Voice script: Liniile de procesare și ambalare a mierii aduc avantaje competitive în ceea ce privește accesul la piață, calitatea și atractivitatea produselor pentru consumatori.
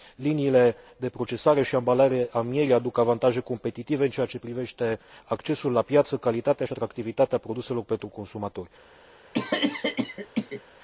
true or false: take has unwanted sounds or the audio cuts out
true